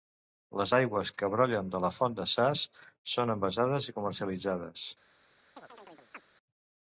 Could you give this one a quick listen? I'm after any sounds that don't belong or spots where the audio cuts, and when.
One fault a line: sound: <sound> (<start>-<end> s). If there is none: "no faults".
sound: chirp (5.6-6.2 s)